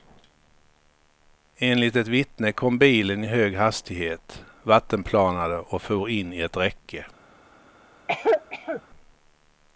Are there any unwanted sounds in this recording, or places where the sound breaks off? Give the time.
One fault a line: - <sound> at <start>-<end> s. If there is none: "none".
- cough at 8.1-8.8 s